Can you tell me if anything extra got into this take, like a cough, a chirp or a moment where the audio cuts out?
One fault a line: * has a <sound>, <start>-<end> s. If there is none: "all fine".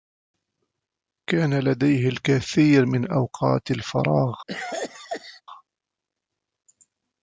* has a cough, 4.5-5.4 s